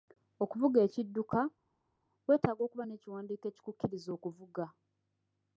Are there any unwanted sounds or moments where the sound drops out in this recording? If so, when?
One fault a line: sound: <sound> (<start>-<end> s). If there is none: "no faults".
no faults